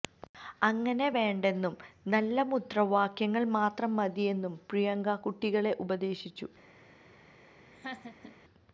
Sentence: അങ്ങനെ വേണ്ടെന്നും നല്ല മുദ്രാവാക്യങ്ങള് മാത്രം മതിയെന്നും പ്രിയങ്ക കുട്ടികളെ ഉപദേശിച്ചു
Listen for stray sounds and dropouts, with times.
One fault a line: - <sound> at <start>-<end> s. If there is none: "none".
- laugh at 7.7-8.4 s